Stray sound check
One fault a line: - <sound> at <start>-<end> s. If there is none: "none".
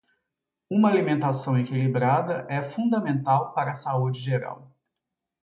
none